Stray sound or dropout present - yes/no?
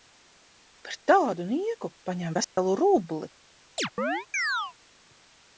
yes